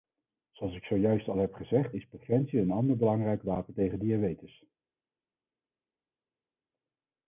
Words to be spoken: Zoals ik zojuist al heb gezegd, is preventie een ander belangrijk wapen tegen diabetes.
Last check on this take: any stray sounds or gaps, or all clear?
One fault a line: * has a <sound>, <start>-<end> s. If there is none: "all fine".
all fine